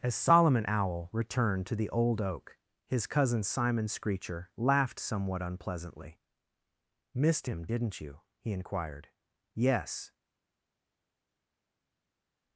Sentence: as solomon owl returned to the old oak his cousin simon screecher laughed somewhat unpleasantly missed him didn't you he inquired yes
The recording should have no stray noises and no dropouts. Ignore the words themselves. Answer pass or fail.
pass